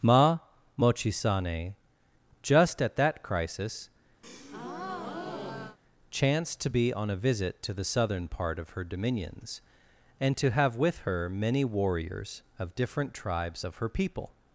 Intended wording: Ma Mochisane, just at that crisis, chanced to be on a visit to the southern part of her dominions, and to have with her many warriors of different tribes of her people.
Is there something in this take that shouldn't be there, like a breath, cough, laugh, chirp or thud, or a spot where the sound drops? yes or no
yes